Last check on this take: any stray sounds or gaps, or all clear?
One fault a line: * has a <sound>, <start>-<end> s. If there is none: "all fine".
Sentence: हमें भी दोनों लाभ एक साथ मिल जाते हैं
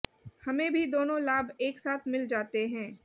all fine